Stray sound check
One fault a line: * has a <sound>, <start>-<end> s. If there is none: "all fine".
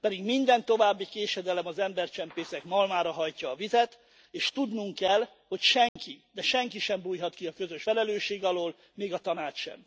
* has a dropout, 5.9-6.0 s